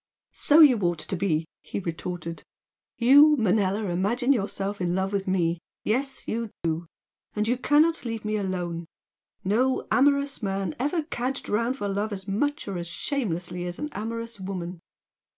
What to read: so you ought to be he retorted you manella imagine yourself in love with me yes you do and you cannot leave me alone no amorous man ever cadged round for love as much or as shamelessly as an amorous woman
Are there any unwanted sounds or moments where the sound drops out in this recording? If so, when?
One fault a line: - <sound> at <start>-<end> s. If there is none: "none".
- dropout at 6.5-6.6 s